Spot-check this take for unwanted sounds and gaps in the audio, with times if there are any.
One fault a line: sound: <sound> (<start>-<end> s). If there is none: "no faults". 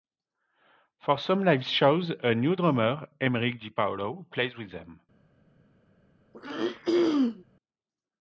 sound: throat clearing (6.3-7.4 s)